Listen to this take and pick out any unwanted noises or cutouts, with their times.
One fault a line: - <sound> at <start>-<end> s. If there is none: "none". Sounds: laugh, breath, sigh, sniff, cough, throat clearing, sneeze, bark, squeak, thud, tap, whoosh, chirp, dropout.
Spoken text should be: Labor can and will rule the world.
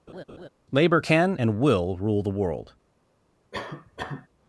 - laugh at 0.1-0.5 s
- cough at 3.5-4.3 s